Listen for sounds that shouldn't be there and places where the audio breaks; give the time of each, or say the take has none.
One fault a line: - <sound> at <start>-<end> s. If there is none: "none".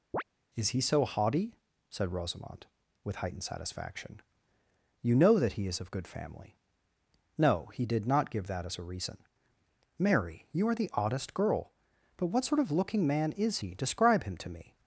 - chirp at 0.1-0.2 s